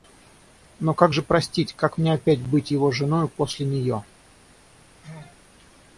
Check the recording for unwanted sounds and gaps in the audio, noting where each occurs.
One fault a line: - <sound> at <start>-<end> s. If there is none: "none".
- sneeze at 5.0-5.4 s